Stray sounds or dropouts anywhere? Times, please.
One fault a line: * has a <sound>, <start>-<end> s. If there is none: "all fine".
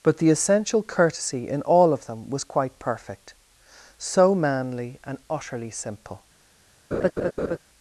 * has a laugh, 6.9-7.6 s